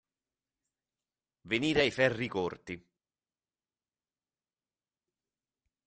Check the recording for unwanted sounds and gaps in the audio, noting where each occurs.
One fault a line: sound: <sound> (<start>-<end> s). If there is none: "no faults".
no faults